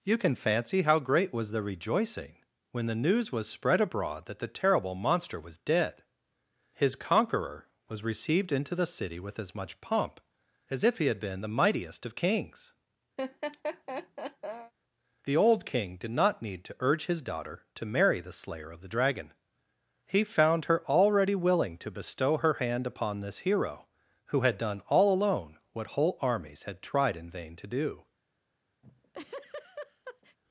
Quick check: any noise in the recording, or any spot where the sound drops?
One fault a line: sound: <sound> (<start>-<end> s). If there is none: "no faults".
sound: laugh (13.2-14.7 s)
sound: laugh (28.8-30.4 s)